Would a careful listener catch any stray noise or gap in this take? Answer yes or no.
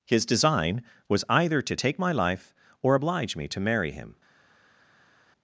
no